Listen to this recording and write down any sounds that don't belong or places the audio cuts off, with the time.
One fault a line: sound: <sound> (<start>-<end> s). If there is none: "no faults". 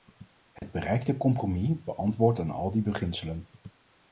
sound: dropout (0.6-0.6 s)